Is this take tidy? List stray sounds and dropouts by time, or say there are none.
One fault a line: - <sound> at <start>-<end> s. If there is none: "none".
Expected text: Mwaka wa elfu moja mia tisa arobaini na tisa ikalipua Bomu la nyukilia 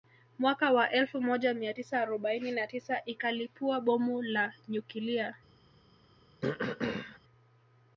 - throat clearing at 6.4-7.2 s